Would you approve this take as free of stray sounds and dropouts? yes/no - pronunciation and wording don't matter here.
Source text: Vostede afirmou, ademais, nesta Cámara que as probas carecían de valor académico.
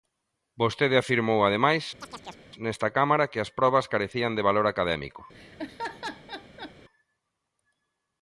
no